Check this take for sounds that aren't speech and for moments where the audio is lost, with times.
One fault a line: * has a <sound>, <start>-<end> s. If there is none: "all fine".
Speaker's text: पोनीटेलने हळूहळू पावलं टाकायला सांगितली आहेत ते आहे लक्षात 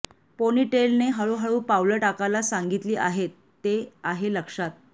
all fine